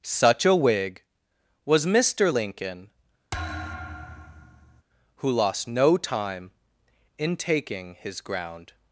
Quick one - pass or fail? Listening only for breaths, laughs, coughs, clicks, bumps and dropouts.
fail